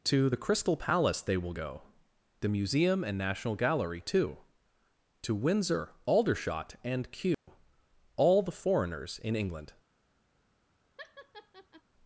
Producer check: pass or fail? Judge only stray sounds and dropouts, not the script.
fail